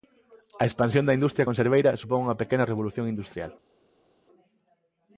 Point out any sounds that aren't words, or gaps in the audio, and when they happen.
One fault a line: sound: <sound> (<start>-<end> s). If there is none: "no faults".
no faults